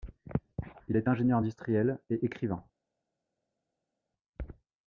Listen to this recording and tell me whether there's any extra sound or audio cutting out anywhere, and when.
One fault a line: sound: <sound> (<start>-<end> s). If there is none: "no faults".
no faults